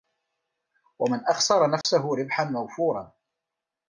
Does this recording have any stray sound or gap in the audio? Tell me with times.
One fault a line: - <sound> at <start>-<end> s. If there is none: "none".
- dropout at 1.8-1.8 s